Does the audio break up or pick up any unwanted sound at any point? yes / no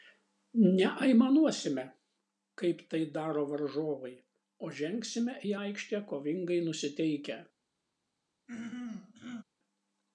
yes